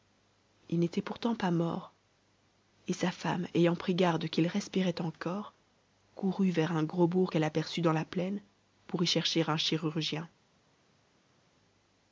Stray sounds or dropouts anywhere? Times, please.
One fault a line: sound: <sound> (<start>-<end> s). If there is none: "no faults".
no faults